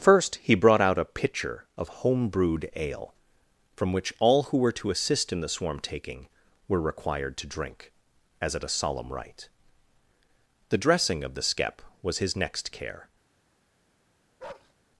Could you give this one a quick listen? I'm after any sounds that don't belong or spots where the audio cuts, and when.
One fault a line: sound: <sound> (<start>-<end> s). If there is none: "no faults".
sound: bark (14.4-14.7 s)